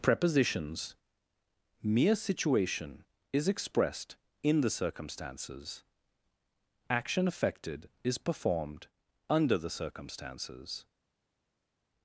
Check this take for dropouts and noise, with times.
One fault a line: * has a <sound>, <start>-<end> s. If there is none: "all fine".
all fine